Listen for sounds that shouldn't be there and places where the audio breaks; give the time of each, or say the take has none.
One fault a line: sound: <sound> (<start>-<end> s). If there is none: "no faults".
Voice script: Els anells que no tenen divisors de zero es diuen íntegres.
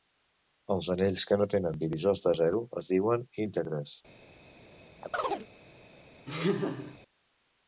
sound: chirp (5.0-5.5 s)
sound: laugh (6.3-7.0 s)